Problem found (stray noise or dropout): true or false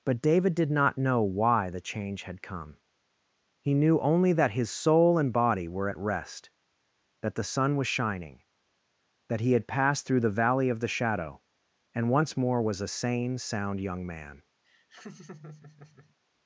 true